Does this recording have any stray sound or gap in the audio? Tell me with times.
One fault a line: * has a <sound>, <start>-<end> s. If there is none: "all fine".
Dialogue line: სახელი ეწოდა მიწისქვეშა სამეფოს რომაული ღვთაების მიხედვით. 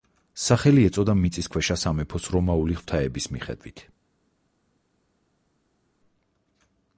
all fine